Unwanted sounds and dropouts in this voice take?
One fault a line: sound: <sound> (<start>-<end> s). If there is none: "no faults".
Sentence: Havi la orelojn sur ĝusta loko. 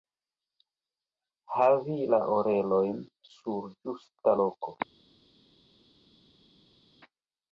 no faults